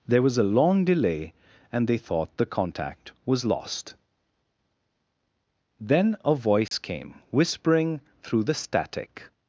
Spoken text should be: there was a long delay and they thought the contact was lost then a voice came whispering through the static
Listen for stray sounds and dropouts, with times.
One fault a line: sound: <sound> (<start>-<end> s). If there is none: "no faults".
sound: dropout (6.7-6.7 s)